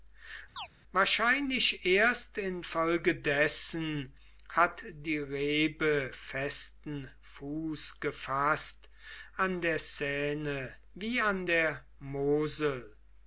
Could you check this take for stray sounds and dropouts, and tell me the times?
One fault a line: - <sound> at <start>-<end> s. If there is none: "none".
- chirp at 0.6-0.7 s